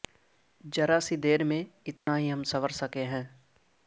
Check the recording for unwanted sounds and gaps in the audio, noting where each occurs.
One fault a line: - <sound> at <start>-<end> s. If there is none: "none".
- dropout at 2.0-2.1 s